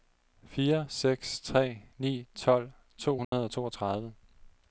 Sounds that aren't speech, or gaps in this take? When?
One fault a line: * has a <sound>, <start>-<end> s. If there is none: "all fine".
* has a dropout, 3.2-3.3 s